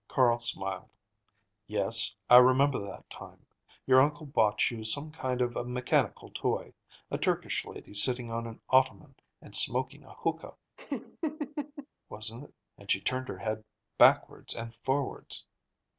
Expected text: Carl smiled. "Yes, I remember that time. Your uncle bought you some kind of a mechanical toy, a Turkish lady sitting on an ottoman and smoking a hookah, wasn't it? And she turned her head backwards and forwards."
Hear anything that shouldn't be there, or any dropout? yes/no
yes